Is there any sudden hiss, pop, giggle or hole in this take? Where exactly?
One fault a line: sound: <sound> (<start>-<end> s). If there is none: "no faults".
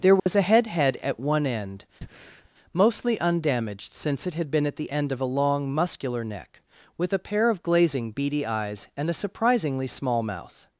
sound: dropout (0.2-0.3 s)
sound: breath (2.0-2.5 s)